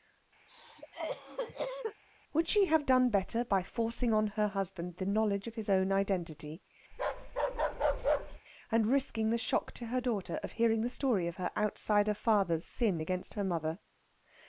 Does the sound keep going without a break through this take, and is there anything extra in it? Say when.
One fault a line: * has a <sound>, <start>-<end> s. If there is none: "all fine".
* has a cough, 0.5-2.0 s
* has a bark, 6.9-8.4 s